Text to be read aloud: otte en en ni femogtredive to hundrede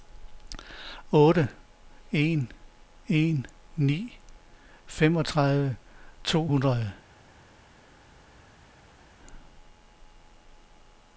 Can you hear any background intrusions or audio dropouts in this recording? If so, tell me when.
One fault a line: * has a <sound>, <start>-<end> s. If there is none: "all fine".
all fine